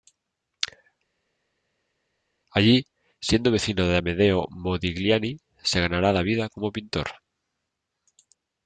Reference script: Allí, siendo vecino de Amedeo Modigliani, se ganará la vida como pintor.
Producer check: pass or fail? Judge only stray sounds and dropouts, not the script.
pass